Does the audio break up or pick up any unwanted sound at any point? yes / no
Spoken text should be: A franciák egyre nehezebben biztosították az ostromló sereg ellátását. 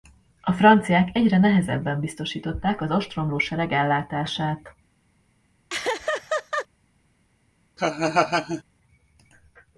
yes